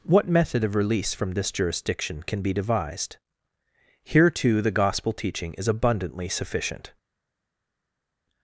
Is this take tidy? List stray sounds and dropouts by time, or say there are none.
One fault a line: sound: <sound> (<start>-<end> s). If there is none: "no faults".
no faults